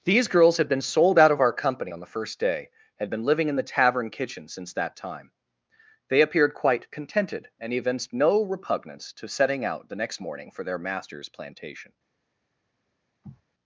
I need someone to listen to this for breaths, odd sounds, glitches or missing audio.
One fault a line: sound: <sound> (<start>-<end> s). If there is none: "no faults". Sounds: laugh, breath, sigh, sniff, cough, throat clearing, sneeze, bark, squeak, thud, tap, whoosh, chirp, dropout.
sound: sniff (13.2-13.4 s)